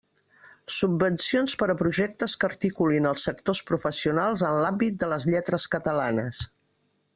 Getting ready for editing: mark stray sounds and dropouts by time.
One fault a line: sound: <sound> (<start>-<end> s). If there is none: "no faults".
no faults